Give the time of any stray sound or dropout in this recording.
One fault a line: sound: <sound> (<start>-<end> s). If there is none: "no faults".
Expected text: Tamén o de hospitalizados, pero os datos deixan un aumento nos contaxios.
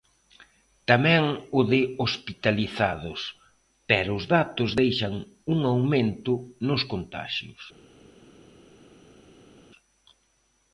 no faults